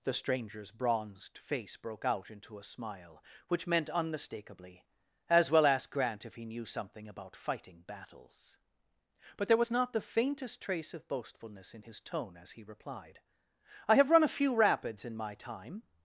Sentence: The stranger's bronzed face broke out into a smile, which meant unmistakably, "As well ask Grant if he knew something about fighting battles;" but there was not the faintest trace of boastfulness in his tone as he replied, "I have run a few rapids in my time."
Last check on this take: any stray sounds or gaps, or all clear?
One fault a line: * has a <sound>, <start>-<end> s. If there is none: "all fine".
all fine